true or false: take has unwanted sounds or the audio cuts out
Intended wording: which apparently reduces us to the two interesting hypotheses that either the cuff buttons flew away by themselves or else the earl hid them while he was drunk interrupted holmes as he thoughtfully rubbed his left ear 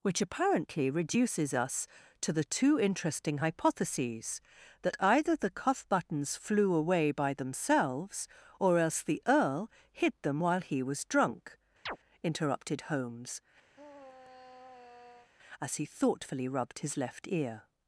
true